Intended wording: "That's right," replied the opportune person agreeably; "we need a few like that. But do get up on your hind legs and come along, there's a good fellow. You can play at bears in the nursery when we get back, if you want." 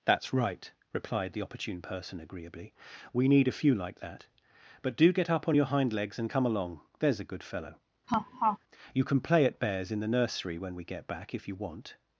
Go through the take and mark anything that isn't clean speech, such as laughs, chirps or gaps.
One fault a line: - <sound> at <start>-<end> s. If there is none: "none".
- laugh at 8.1-8.6 s